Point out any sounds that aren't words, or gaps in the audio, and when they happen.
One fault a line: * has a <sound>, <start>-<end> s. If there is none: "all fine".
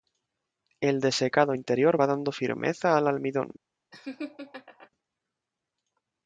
* has a laugh, 3.9-4.9 s